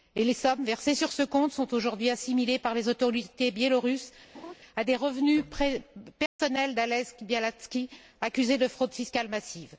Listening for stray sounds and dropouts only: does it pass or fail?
fail